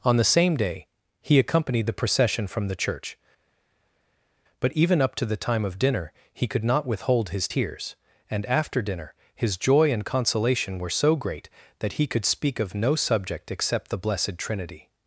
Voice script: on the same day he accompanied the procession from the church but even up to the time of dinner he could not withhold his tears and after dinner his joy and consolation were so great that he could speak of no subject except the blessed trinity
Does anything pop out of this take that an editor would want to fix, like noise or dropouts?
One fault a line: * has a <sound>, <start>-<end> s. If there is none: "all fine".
all fine